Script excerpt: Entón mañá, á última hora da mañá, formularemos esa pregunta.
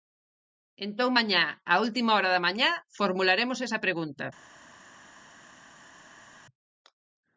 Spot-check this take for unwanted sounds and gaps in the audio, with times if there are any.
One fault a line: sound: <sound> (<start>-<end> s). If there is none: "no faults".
no faults